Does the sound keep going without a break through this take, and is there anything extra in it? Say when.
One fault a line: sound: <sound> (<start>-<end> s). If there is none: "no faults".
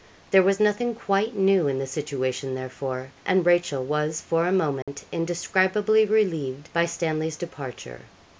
sound: dropout (4.8-4.9 s)